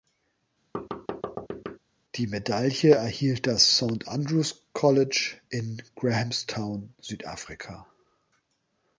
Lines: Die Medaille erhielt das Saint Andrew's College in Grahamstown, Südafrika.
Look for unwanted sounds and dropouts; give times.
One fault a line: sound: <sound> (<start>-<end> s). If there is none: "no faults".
sound: thud (0.7-1.8 s)